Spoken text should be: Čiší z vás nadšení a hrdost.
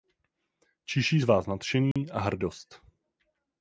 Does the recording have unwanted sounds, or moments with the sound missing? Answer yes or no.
yes